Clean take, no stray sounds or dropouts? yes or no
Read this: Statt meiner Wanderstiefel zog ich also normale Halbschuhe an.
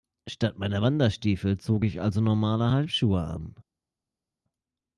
yes